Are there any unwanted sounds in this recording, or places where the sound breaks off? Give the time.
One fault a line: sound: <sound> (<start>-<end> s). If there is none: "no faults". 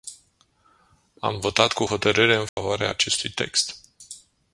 sound: dropout (2.5-2.6 s)